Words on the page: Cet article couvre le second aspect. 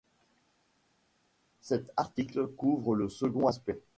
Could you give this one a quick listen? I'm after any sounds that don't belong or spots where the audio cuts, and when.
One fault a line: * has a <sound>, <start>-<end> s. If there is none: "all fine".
all fine